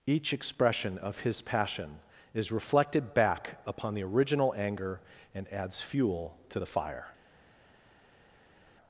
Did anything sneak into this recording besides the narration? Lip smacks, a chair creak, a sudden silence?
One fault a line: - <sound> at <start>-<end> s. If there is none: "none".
none